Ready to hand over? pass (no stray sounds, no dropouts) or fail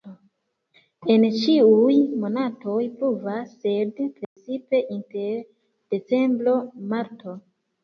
fail